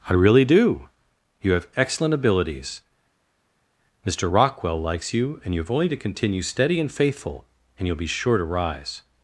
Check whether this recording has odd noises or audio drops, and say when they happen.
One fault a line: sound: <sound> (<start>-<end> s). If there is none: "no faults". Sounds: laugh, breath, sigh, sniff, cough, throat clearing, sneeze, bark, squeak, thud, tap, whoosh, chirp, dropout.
no faults